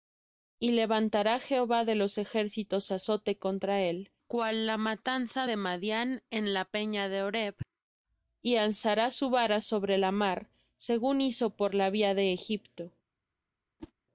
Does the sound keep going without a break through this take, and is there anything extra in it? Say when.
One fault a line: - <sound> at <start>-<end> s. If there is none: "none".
- whoosh at 13.8-13.9 s